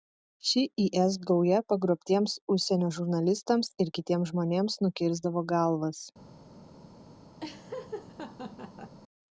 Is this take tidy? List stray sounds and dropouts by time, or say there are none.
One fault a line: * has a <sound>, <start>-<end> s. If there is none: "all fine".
* has a laugh, 7.4-9.0 s